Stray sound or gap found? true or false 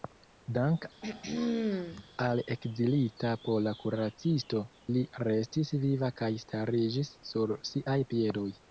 true